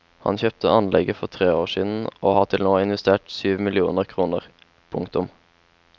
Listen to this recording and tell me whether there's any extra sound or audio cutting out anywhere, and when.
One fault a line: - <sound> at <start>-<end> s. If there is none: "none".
none